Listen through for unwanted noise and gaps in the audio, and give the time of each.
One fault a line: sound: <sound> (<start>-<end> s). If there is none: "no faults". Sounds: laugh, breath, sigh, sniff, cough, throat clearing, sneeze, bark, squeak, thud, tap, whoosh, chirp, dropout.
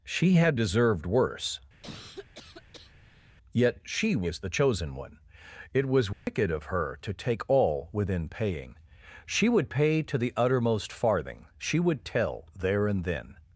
sound: cough (1.8-3.4 s)
sound: dropout (6.1-6.3 s)